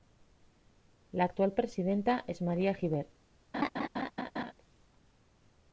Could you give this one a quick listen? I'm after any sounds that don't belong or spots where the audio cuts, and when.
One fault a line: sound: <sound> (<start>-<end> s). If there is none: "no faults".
sound: laugh (3.5-4.5 s)